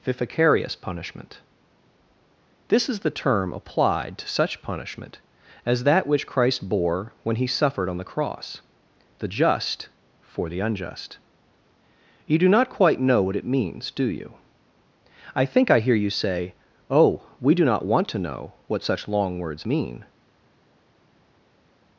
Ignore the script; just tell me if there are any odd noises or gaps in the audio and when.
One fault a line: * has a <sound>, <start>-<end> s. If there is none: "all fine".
all fine